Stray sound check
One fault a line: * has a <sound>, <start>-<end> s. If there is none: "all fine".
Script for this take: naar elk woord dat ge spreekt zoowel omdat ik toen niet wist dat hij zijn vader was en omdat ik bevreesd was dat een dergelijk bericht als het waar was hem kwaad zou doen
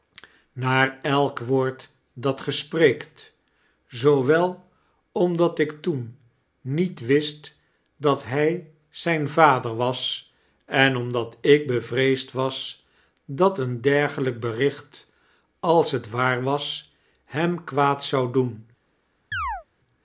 * has a chirp, 19.3-19.6 s